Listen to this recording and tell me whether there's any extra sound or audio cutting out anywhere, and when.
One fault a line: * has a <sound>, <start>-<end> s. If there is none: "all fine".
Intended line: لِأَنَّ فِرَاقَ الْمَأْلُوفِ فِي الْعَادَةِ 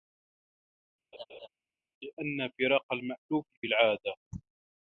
* has a laugh, 1.1-1.5 s